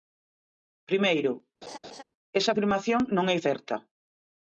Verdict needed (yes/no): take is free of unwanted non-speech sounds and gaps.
no